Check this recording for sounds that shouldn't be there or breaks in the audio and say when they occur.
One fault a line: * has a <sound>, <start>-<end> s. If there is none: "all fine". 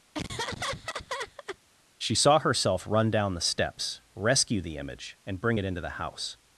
* has a laugh, 0.1-1.6 s